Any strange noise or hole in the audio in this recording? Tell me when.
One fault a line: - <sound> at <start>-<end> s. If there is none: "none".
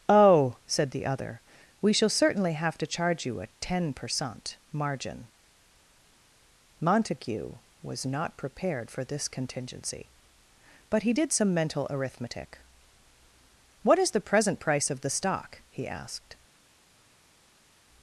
none